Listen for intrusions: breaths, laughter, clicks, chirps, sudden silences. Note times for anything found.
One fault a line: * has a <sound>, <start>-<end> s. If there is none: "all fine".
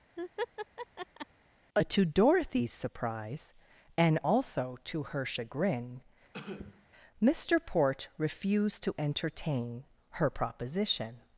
* has a laugh, 0.2-1.3 s
* has a cough, 6.3-6.9 s